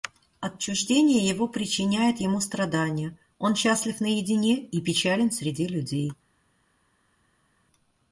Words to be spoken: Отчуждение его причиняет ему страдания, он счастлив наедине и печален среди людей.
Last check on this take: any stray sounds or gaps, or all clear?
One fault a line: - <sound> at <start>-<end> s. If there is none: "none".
none